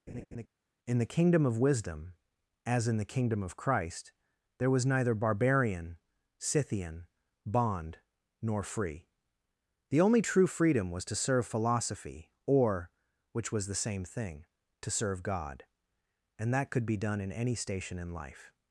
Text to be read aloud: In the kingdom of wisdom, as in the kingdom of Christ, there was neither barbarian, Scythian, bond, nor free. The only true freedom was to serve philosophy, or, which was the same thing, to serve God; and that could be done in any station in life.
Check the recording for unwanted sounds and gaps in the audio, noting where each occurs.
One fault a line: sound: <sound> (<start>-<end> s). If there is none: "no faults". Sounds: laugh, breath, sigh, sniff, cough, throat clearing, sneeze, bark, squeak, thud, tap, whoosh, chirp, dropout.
sound: laugh (0.1-0.5 s)